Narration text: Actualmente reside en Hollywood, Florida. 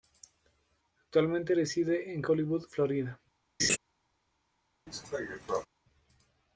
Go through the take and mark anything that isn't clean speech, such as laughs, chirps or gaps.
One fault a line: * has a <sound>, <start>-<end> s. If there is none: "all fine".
* has a laugh, 3.6-3.8 s
* has a cough, 4.9-5.7 s